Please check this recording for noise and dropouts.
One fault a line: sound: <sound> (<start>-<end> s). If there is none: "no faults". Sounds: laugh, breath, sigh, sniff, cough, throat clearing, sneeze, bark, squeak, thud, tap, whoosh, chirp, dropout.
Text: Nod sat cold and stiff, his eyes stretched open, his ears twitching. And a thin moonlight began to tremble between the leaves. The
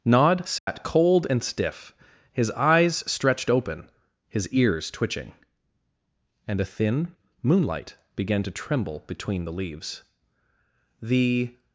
sound: dropout (0.6-0.7 s)